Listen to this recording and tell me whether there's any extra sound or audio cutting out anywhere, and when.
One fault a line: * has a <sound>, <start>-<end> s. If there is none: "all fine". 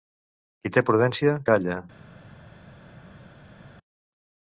all fine